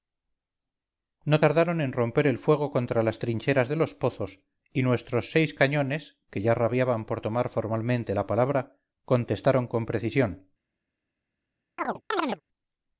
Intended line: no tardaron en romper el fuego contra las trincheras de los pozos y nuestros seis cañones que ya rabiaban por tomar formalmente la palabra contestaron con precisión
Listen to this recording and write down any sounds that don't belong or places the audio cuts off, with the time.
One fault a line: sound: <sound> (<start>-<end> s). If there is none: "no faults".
sound: chirp (11.8-12.4 s)